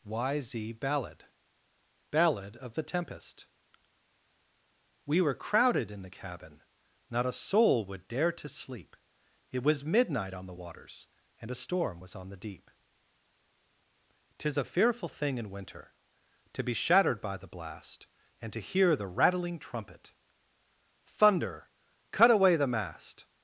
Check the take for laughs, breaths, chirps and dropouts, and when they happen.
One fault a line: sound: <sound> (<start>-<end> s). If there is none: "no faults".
no faults